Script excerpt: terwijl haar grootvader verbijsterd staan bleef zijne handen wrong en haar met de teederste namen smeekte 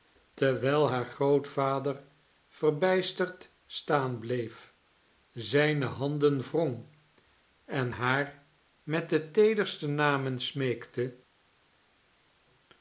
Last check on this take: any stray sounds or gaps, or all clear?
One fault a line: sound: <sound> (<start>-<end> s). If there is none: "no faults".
no faults